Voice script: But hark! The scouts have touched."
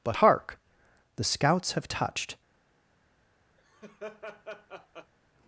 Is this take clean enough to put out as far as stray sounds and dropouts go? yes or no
no